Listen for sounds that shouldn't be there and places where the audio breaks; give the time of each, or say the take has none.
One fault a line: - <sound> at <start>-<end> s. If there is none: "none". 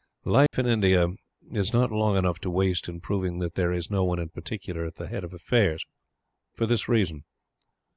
- dropout at 0.5-0.5 s